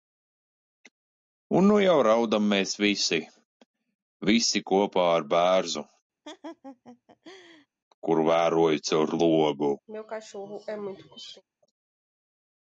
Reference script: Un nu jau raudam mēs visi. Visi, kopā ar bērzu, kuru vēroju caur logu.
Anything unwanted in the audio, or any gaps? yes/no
yes